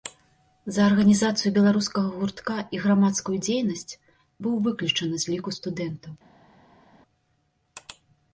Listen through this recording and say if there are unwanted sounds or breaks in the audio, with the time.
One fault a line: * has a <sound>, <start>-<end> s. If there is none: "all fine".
all fine